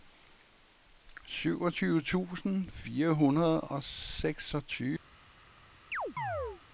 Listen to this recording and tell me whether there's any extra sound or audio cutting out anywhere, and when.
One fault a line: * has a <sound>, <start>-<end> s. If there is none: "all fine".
* has a chirp, 5.9-6.6 s